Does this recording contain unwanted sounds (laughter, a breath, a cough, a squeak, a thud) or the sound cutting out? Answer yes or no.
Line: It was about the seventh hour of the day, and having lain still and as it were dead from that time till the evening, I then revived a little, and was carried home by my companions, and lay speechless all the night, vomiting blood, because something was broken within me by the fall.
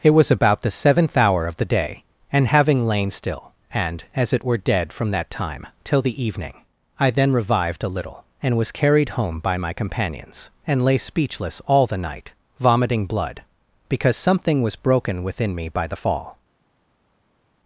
no